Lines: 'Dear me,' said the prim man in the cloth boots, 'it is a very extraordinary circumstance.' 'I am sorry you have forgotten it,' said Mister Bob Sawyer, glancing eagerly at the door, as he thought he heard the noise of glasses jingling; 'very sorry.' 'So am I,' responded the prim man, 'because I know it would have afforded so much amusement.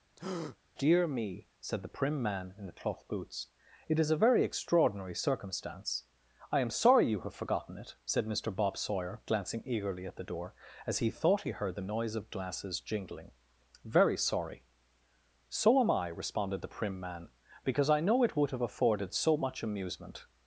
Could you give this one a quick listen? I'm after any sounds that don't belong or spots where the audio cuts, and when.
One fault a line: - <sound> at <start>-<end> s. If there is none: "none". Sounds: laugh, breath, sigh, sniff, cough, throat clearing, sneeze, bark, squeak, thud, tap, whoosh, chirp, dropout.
- breath at 0.2-0.6 s